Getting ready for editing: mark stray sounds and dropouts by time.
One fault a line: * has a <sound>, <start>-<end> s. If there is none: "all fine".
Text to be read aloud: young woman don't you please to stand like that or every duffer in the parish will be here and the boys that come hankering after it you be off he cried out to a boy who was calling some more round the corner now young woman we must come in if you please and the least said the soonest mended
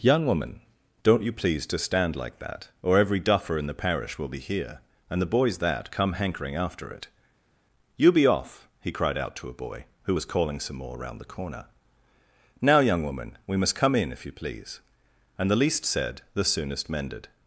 all fine